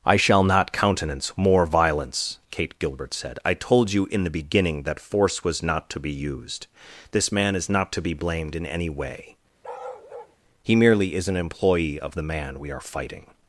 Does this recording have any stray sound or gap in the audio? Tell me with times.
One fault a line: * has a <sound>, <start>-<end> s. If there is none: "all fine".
* has a bark, 9.6-10.4 s